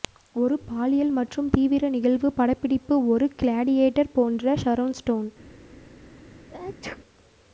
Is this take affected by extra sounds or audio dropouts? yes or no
yes